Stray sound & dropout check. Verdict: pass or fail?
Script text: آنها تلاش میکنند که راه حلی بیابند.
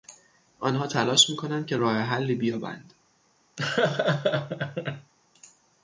fail